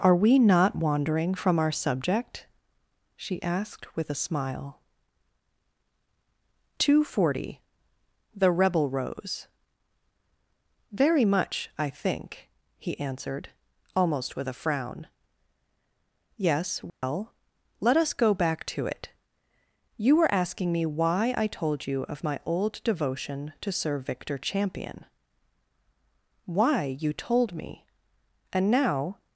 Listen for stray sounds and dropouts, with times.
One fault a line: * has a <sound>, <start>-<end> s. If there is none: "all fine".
* has a dropout, 16.9-17.0 s